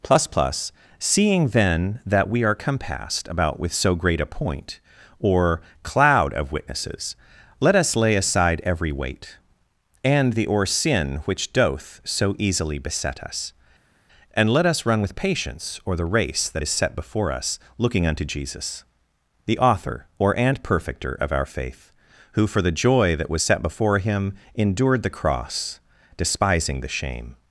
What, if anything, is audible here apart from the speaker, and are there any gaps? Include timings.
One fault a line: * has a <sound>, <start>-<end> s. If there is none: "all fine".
all fine